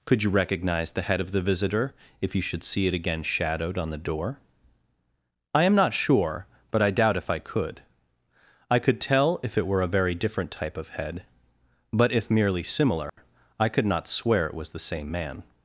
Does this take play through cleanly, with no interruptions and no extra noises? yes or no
no